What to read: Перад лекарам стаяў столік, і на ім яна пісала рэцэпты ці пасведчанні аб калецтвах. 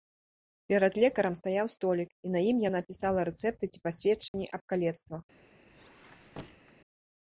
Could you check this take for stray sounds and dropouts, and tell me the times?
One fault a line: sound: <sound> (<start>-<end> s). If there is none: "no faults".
sound: dropout (4.3-4.3 s)
sound: squeak (5.7-6.7 s)